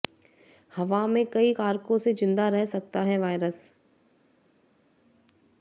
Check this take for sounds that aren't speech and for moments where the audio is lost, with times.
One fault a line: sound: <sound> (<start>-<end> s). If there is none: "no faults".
no faults